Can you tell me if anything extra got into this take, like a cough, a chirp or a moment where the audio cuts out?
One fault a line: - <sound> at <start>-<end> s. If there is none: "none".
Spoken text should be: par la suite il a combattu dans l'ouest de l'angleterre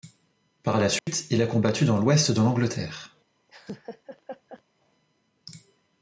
- dropout at 1.0-1.1 s
- laugh at 3.5-4.6 s